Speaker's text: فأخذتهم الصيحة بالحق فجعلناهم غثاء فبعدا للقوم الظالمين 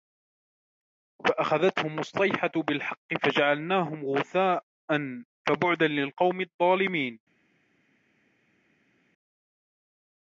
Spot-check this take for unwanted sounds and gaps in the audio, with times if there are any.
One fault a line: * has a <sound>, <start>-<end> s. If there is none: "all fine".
all fine